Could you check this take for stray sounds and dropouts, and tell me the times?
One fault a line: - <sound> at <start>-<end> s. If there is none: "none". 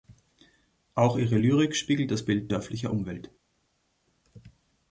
none